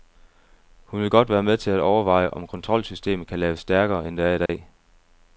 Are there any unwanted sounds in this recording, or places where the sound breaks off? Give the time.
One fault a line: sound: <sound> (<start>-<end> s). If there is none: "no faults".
sound: dropout (4.5-4.5 s)